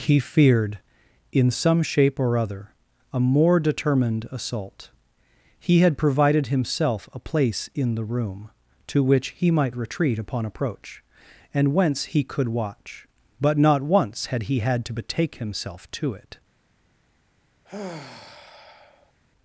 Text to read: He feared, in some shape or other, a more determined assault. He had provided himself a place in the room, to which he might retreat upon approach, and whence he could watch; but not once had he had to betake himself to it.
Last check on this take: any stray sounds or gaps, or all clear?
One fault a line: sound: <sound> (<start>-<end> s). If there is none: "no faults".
sound: sigh (17.6-19.1 s)